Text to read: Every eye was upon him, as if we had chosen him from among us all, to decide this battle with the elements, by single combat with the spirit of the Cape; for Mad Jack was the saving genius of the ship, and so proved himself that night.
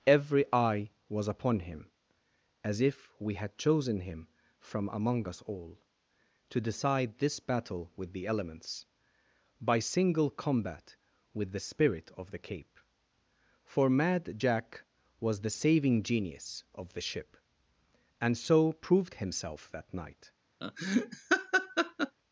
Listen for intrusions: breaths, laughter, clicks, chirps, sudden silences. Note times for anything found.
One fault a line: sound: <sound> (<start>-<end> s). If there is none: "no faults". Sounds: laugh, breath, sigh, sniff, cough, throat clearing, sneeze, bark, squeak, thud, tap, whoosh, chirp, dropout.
sound: laugh (20.6-22.2 s)